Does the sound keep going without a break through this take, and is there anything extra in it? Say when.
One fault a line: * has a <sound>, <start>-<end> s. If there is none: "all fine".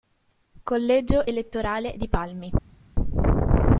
all fine